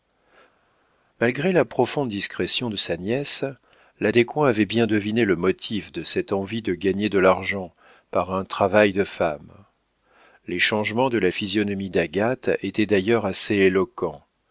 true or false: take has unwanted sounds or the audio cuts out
false